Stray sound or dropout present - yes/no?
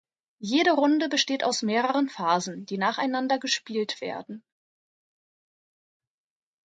no